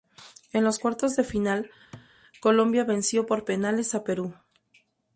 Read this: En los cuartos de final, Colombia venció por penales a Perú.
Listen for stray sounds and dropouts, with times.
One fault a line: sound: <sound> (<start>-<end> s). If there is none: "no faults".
sound: thud (1.9-2.1 s)